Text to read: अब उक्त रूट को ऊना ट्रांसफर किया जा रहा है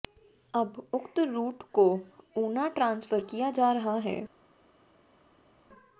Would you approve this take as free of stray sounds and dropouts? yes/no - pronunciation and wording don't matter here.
yes